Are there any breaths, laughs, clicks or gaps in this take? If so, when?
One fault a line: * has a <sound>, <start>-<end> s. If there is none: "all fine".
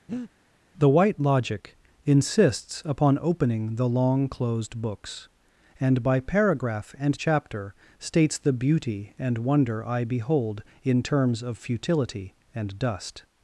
* has a breath, 0.1-0.3 s